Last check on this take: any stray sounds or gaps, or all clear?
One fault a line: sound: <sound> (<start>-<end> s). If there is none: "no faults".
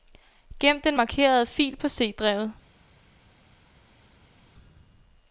no faults